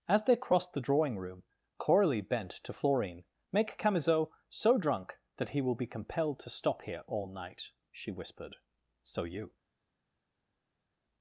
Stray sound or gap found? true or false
false